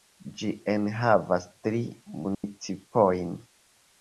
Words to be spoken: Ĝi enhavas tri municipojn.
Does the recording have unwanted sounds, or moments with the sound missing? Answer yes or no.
yes